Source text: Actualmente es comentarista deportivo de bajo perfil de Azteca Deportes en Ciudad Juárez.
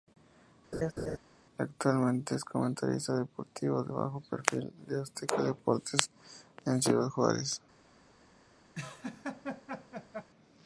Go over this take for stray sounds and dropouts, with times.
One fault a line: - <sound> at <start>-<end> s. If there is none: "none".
- laugh at 0.7-1.2 s
- laugh at 8.7-10.3 s